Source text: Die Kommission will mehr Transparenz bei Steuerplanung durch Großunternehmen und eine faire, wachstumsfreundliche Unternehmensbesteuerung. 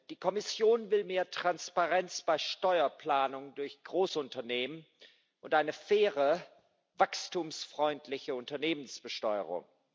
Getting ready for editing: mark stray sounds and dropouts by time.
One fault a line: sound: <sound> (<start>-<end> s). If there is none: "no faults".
no faults